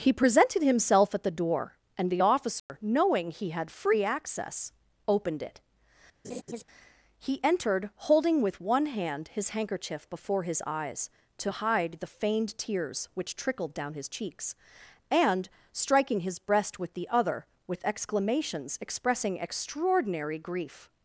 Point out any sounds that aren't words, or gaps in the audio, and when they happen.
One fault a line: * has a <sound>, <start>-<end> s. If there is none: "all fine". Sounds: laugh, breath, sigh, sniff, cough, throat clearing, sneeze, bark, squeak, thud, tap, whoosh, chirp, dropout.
* has a dropout, 2.6-2.7 s
* has a laugh, 6.2-6.6 s